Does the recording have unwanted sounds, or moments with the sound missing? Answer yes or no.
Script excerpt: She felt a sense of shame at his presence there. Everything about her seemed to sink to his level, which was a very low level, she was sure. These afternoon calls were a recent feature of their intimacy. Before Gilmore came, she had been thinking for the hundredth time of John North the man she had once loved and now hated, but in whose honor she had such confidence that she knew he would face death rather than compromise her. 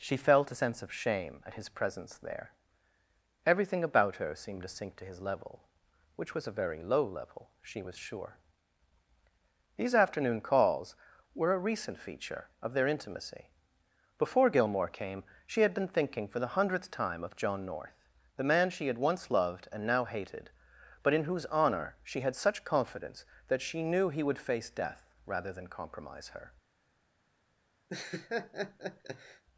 yes